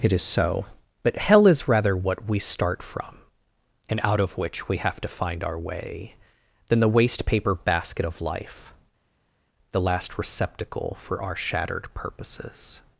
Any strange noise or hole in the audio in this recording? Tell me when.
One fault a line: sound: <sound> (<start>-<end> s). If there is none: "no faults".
no faults